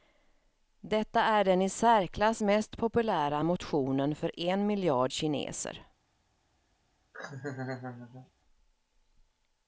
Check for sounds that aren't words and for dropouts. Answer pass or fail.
fail